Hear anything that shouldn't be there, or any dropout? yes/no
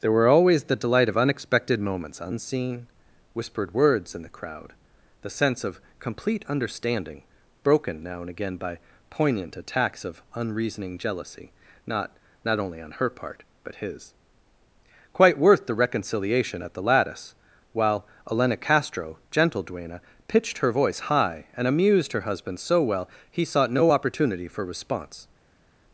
no